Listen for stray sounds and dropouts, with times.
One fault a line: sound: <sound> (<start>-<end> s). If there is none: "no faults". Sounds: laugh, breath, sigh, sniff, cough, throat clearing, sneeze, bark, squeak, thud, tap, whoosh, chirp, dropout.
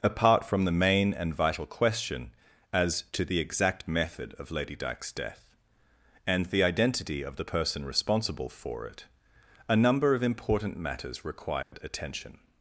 sound: dropout (11.6-11.7 s)